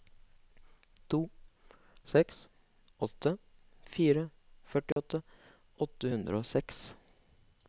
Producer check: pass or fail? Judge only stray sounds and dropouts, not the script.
fail